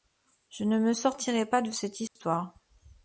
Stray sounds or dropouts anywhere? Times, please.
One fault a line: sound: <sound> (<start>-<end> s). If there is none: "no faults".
sound: dropout (2.1-2.2 s)